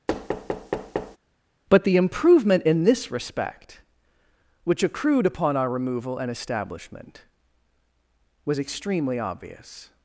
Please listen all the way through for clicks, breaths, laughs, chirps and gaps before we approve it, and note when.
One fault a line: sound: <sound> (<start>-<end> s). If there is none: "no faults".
sound: thud (0.1-1.2 s)